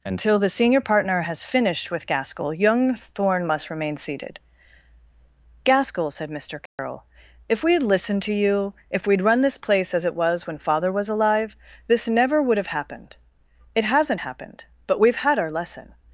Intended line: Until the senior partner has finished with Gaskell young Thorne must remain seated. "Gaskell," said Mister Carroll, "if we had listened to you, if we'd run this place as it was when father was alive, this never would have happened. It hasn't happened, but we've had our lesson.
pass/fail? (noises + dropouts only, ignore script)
fail